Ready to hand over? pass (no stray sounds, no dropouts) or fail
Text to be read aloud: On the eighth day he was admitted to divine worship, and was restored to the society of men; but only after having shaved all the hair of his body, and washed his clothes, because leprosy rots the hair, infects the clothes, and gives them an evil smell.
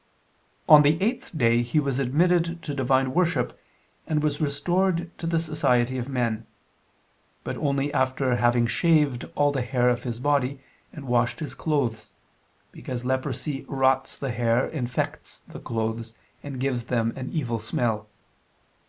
pass